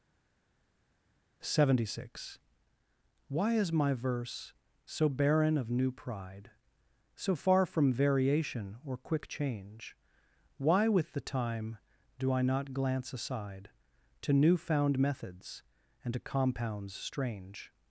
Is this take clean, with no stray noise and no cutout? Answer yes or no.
yes